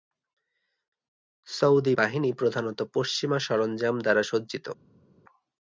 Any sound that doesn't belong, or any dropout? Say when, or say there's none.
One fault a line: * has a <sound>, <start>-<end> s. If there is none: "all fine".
all fine